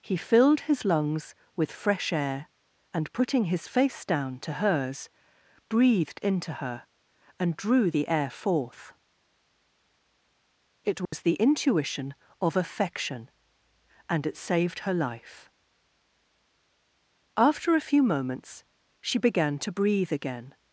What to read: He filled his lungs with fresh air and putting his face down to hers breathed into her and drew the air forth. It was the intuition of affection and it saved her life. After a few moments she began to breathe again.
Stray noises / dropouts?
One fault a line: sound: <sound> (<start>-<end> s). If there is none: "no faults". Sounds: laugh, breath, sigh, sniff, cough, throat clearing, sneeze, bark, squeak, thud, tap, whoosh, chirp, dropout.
sound: dropout (11.1-11.1 s)